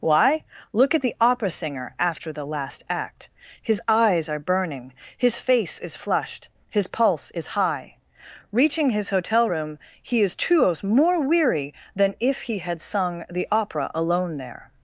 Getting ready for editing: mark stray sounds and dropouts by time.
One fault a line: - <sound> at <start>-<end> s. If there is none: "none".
none